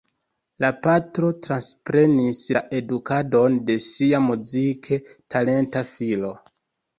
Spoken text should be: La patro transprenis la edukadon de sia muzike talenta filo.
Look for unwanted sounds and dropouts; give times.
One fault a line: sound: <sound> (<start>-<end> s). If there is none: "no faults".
no faults